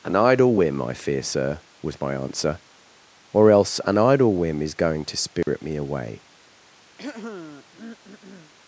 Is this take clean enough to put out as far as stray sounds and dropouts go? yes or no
no